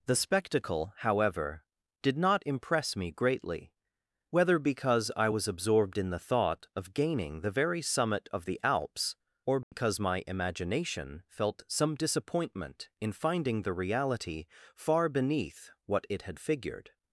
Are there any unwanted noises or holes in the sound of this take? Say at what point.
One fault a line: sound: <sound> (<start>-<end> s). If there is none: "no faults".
sound: dropout (9.6-9.7 s)